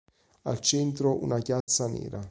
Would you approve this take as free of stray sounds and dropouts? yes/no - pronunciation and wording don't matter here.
no